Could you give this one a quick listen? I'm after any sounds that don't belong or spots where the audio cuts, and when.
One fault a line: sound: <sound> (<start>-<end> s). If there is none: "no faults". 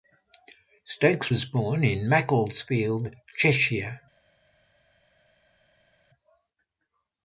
no faults